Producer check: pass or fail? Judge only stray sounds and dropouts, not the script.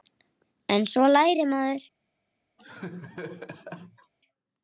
fail